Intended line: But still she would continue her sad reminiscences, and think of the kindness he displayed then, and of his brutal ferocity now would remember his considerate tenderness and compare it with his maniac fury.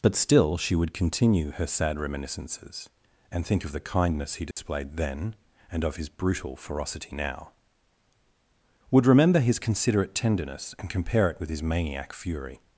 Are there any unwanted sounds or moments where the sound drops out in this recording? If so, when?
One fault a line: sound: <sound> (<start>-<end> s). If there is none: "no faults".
sound: dropout (4.5-4.6 s)